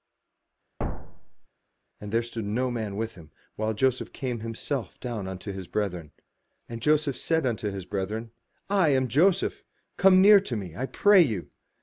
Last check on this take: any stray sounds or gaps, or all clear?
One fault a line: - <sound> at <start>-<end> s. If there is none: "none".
- thud at 0.8-1.5 s